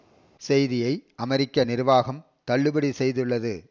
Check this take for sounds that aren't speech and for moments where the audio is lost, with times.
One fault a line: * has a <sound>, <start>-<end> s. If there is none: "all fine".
all fine